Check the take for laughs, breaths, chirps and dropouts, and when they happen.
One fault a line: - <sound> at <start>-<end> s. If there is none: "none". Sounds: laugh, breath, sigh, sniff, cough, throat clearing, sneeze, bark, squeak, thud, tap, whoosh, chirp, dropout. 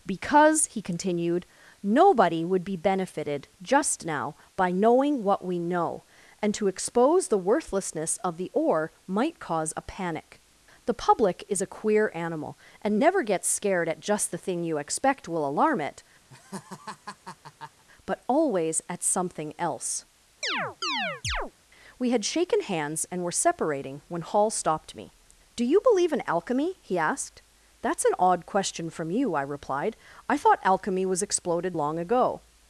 - laugh at 16.3-17.8 s
- chirp at 20.4-21.5 s